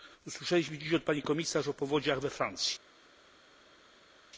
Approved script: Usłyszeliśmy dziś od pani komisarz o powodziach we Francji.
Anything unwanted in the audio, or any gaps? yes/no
no